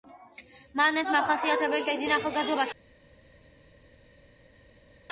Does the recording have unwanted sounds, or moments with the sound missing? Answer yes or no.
no